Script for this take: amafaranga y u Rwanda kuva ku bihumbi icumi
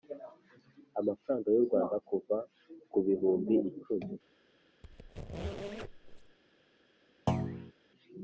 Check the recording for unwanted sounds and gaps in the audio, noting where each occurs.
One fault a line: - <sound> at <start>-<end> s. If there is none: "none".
- squeak at 4.8-6.4 s
- thud at 7.3-7.7 s